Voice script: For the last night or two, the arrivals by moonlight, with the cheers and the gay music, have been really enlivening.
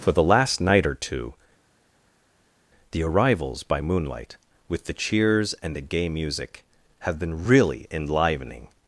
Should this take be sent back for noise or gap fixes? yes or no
no